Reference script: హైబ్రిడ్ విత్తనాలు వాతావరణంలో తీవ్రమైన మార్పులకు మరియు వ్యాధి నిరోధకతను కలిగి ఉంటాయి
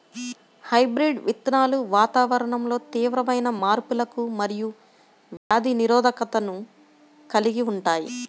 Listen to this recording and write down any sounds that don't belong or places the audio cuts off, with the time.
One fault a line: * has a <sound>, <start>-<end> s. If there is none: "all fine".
* has a dropout, 5.4-5.5 s